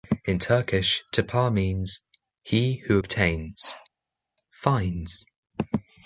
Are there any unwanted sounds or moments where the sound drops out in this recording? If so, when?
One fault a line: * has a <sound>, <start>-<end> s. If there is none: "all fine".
all fine